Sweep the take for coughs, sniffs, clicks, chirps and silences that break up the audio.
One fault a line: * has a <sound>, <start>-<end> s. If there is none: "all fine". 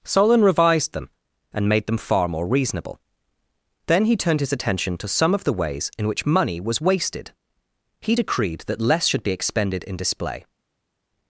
all fine